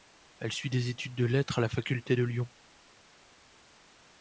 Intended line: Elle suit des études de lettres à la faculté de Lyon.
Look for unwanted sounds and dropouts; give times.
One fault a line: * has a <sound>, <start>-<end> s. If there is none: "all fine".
all fine